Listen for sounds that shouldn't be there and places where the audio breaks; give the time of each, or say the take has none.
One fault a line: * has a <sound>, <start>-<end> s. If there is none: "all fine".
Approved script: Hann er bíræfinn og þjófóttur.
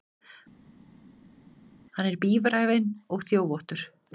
all fine